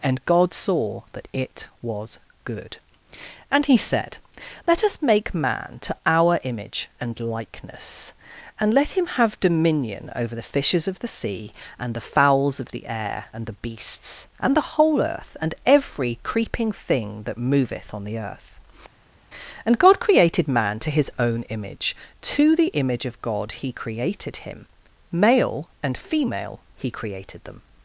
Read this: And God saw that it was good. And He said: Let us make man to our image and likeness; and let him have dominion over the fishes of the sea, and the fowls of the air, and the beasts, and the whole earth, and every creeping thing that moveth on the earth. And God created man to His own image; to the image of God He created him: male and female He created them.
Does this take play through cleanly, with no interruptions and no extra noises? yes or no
yes